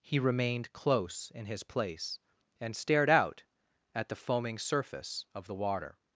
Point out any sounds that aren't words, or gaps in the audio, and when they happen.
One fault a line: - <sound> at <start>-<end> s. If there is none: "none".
none